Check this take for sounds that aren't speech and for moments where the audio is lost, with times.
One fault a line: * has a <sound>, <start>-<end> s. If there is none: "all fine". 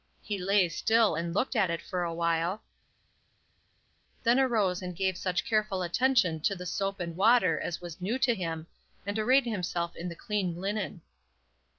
all fine